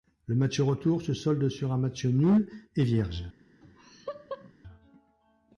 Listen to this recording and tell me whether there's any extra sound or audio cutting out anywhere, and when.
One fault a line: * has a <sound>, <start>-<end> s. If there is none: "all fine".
* has a laugh, 3.6-4.5 s